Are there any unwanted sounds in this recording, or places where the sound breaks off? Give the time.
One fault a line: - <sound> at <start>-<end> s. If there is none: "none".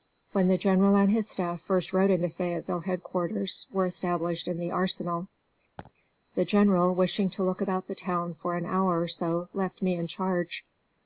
- laugh at 5.8-5.9 s